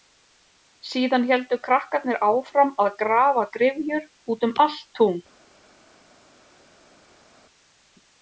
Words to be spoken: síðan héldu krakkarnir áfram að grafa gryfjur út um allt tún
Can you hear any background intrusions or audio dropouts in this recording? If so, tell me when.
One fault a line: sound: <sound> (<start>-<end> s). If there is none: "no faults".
no faults